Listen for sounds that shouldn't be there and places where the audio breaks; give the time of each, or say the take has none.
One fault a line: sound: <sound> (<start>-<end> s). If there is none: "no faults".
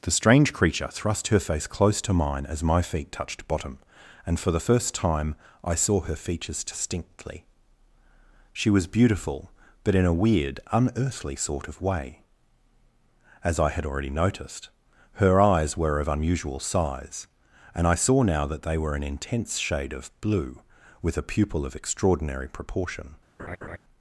sound: laugh (23.4-23.8 s)